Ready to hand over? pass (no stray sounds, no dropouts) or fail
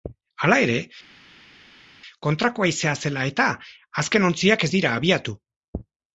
pass